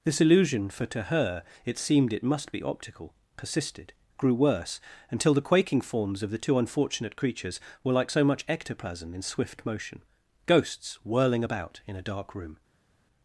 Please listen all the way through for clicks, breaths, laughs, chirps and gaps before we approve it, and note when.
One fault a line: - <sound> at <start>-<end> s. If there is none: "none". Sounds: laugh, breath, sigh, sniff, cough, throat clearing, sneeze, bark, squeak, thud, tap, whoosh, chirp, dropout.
none